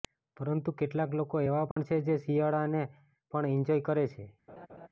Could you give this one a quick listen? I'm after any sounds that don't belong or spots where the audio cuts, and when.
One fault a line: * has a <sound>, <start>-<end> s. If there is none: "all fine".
* has a dropout, 1.7-1.8 s
* has a laugh, 4.5-4.9 s